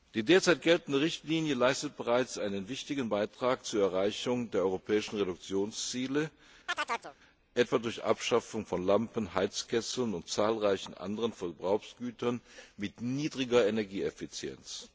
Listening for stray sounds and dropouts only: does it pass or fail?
fail